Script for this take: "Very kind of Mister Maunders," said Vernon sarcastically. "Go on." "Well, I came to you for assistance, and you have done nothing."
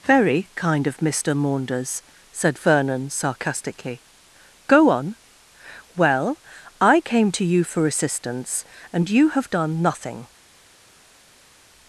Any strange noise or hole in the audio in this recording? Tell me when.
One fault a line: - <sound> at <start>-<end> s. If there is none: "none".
none